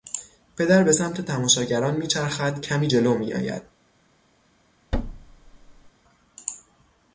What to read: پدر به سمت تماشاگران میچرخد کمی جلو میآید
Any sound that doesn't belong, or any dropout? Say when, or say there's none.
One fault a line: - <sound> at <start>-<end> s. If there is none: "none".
- thud at 4.9-5.9 s